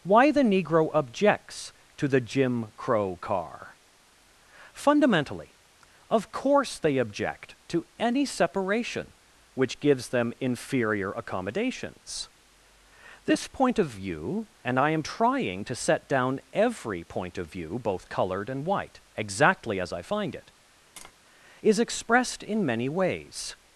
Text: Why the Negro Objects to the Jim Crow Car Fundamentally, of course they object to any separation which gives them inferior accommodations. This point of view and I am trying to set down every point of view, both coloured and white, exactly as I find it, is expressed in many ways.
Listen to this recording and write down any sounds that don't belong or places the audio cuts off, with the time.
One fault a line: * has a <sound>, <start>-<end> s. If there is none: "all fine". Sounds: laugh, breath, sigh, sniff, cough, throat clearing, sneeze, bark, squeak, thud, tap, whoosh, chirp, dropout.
* has a tap, 21.0-21.1 s